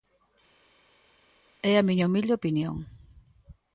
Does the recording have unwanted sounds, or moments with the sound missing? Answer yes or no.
no